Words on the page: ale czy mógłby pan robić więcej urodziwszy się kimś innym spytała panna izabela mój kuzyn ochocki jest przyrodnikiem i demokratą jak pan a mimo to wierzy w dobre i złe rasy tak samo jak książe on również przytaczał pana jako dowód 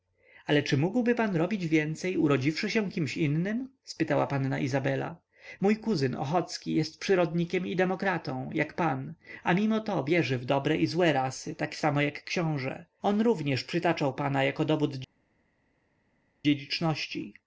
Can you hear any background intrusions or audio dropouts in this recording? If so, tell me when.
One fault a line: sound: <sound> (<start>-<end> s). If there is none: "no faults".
no faults